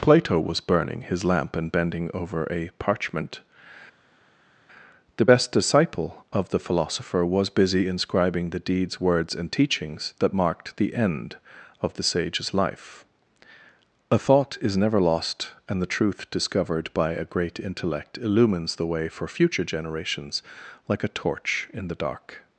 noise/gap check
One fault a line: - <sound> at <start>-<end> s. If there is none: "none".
none